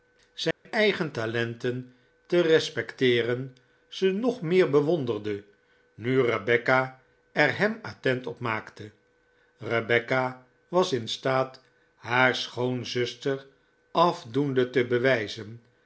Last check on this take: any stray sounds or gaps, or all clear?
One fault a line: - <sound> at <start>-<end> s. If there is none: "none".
- dropout at 0.5-0.7 s